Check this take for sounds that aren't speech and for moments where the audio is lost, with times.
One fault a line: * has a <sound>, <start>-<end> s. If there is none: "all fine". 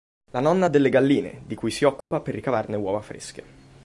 * has a dropout, 2.0-2.1 s